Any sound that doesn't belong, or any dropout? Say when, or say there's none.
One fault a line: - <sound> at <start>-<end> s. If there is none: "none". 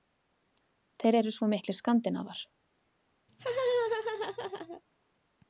- laugh at 3.3-4.8 s